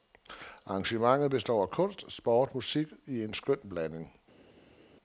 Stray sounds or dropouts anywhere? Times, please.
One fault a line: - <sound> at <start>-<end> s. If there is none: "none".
none